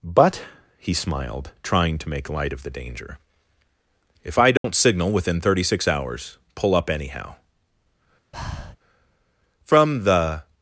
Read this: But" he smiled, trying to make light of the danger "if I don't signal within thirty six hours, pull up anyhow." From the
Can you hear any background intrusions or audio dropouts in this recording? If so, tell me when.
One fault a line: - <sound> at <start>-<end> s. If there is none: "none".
- dropout at 4.6-4.6 s
- breath at 8.3-8.8 s